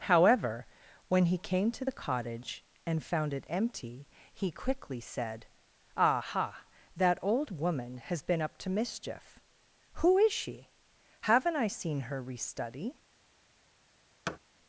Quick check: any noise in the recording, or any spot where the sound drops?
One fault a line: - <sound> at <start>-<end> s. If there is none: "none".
- thud at 14.3-14.4 s